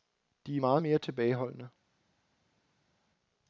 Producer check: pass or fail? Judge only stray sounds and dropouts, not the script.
pass